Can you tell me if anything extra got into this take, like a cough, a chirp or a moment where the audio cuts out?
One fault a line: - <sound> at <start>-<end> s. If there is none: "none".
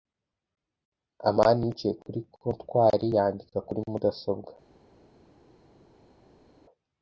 none